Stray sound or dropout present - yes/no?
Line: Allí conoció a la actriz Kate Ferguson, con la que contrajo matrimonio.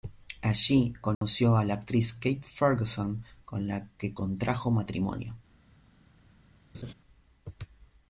yes